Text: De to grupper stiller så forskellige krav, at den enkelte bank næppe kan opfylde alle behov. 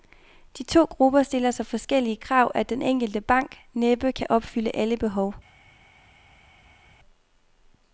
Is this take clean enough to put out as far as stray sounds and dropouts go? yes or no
yes